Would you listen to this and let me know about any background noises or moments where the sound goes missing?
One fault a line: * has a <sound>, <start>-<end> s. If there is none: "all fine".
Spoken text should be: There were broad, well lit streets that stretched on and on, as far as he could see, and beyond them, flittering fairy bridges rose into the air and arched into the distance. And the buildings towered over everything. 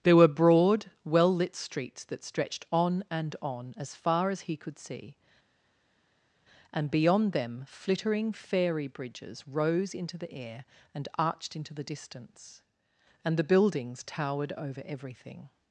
all fine